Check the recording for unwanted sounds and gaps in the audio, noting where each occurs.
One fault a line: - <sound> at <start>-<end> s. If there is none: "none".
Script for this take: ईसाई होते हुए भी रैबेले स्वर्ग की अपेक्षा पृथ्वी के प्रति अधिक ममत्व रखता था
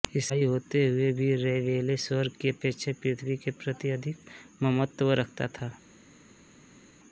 none